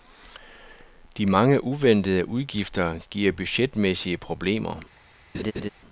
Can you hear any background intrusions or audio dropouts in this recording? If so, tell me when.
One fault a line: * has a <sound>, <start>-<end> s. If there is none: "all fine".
* has a laugh, 5.3-5.7 s